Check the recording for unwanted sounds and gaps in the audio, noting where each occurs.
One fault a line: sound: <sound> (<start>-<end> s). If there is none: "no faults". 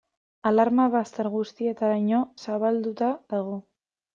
no faults